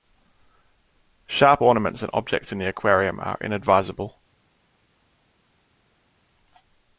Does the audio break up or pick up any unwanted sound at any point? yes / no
no